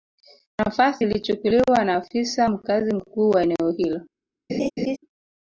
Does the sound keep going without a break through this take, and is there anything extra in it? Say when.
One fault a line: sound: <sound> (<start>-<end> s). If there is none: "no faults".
sound: laugh (4.5-5.0 s)